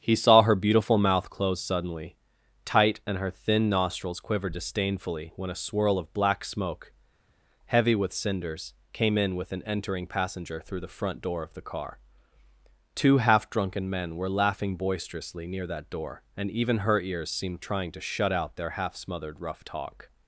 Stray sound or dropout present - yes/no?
no